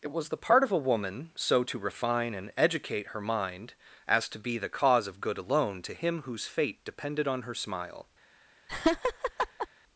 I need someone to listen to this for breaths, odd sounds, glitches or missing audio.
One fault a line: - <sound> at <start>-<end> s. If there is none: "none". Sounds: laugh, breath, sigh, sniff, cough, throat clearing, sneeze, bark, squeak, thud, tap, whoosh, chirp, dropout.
- laugh at 8.7-9.7 s